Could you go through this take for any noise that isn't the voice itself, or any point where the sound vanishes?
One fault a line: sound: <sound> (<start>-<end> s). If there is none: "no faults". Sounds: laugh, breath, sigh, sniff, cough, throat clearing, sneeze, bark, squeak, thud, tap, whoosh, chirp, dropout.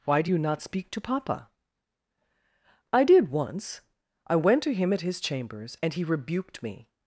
no faults